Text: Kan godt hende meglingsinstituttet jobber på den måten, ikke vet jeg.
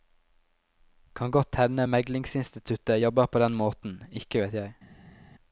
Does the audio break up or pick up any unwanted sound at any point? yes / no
no